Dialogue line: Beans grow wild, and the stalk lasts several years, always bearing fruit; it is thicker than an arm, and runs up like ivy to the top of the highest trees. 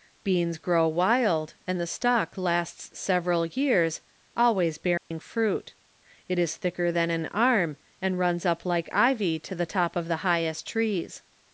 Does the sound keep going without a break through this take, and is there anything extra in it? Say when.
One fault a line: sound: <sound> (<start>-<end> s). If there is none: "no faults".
sound: dropout (5.0-5.1 s)